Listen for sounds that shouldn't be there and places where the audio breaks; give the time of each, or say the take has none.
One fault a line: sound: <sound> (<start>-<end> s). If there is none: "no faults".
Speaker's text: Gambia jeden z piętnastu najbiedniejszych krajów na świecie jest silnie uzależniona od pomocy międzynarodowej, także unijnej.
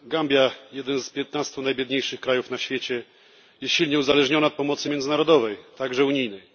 no faults